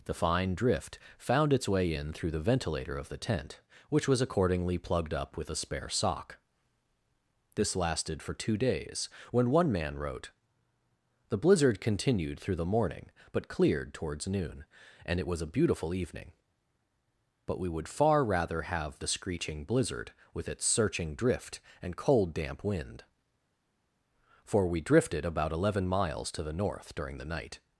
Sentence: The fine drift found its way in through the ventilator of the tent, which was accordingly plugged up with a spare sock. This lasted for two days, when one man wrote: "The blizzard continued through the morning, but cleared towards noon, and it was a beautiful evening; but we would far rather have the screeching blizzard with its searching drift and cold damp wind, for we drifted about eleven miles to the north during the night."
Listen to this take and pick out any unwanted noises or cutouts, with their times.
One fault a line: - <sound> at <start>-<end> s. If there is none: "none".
none